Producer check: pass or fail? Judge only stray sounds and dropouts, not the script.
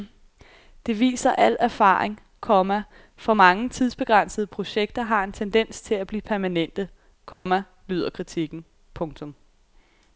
fail